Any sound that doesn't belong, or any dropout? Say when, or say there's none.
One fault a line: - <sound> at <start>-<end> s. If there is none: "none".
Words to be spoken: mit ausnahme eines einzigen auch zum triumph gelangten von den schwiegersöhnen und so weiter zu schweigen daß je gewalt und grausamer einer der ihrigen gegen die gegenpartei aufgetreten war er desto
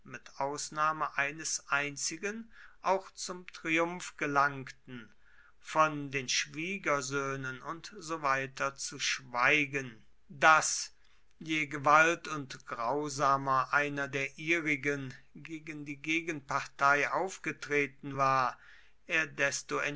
none